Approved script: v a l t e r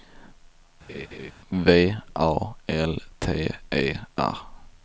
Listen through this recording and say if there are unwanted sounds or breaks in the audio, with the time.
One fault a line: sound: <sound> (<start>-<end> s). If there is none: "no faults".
sound: laugh (0.9-1.3 s)